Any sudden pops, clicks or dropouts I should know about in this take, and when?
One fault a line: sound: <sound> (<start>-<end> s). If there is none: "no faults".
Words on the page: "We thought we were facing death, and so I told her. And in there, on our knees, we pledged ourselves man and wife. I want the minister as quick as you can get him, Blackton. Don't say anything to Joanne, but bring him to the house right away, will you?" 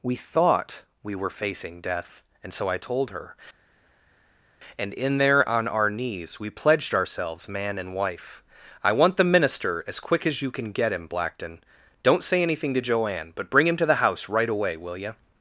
no faults